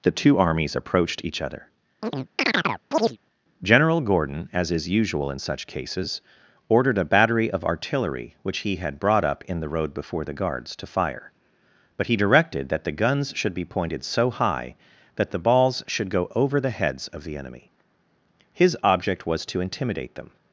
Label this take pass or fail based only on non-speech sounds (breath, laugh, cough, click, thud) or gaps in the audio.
fail